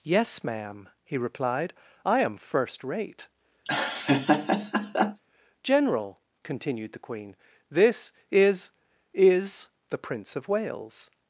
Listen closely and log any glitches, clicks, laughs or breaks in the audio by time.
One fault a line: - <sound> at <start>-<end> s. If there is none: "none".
- laugh at 3.7-5.2 s